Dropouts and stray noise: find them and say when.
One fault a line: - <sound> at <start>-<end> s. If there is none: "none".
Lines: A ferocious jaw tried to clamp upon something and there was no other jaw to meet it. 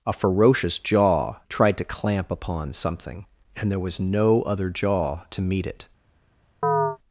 - chirp at 6.6-7.0 s